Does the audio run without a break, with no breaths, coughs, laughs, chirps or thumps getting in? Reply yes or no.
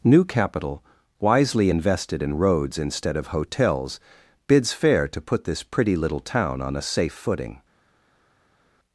yes